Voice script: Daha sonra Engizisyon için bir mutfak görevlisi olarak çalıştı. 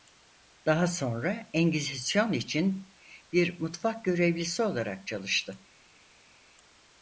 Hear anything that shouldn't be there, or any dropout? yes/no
no